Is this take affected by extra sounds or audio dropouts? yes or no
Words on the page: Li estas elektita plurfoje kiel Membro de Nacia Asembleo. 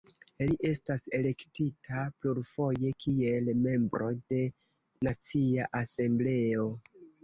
no